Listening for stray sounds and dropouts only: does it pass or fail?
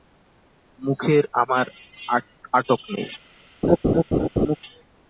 fail